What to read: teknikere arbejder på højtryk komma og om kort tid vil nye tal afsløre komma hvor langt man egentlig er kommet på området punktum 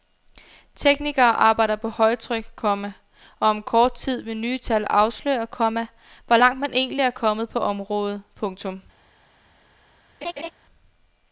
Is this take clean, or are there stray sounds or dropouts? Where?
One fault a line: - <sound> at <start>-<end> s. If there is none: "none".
- laugh at 10.2-10.5 s